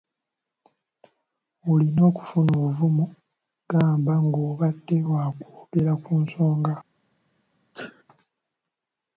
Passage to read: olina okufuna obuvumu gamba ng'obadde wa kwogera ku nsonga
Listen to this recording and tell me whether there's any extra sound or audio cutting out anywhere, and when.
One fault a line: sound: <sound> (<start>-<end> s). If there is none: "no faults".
sound: sneeze (7.7-8.0 s)